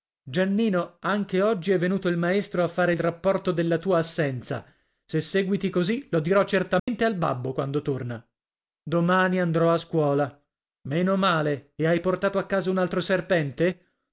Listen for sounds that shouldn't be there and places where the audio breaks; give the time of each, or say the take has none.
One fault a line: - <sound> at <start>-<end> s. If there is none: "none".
- dropout at 6.8-6.9 s